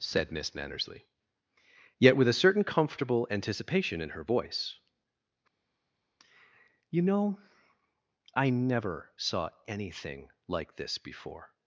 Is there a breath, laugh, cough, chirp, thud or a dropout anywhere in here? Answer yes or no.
no